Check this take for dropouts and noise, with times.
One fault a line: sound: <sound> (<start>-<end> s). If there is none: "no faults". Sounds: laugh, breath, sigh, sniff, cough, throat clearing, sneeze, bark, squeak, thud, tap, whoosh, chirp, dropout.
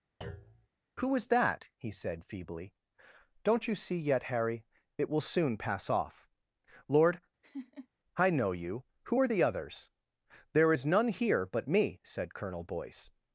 sound: thud (0.2-0.7 s)
sound: laugh (7.4-7.9 s)